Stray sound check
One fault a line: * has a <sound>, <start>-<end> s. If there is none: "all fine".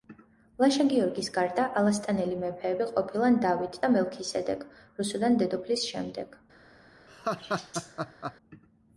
* has a laugh, 7.1-8.3 s